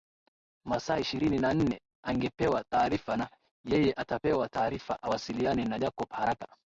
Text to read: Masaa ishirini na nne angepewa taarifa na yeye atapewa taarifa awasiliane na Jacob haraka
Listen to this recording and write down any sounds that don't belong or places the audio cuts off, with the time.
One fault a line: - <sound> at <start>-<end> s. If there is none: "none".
none